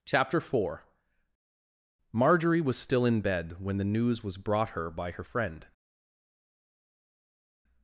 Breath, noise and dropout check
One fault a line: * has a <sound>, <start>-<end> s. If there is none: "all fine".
all fine